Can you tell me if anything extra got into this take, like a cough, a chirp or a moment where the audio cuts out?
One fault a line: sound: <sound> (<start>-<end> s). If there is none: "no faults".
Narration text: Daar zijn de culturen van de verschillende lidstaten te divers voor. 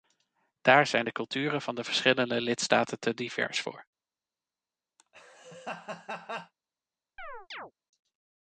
sound: laugh (5.0-6.5 s)
sound: chirp (7.2-7.7 s)